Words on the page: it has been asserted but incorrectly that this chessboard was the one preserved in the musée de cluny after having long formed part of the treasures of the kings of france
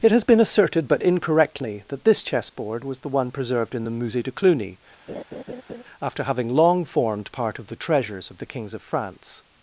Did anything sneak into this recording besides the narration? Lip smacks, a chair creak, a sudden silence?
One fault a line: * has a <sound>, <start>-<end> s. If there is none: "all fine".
* has a laugh, 5.1-5.8 s